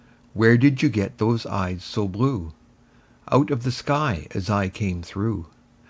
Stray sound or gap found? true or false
false